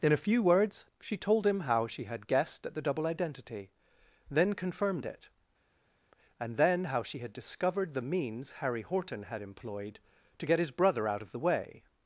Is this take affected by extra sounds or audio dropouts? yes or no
no